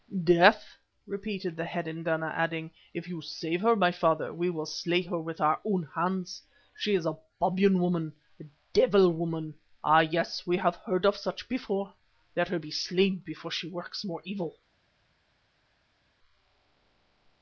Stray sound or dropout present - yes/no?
no